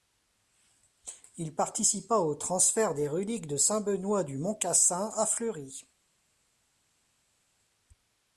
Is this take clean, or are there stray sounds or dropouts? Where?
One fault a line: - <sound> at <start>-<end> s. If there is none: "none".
none